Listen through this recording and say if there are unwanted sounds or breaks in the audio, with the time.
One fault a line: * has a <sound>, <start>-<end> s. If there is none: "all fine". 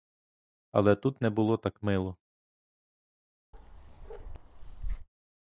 * has a bark, 3.5-5.1 s